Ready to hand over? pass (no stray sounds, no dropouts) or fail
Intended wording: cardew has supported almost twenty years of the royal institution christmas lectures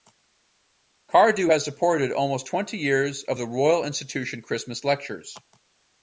pass